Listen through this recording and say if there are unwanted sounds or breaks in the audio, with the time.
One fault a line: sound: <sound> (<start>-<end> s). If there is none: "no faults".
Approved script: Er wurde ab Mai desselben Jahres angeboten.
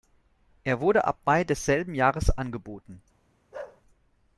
sound: bark (3.5-3.8 s)